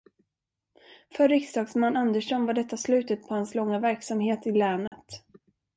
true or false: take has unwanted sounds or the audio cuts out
true